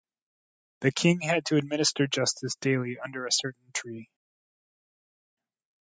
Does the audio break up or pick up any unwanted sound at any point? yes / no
no